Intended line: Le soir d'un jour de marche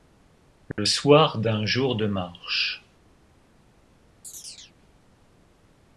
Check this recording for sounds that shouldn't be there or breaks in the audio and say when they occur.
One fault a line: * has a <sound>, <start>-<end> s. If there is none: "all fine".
* has a dropout, 0.7-0.8 s
* has a chirp, 4.2-4.7 s